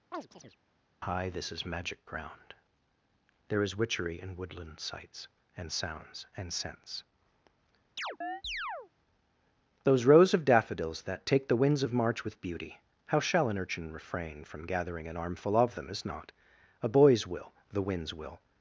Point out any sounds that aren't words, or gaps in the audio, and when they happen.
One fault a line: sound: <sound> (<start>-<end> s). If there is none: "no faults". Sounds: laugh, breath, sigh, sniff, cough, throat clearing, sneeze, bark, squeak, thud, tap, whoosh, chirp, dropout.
sound: chirp (0.1-0.6 s)
sound: chirp (8.0-8.9 s)